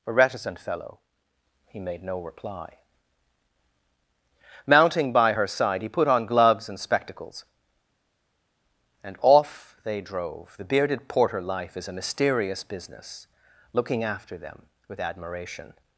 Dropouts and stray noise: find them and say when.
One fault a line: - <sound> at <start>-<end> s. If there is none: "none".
none